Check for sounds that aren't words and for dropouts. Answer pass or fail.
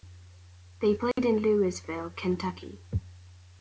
fail